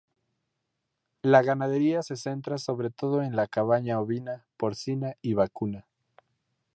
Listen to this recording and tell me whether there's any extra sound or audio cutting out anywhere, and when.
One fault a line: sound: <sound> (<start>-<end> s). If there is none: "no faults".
no faults